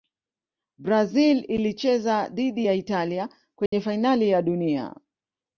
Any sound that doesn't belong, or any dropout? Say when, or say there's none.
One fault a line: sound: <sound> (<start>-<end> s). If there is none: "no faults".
sound: dropout (3.7-3.7 s)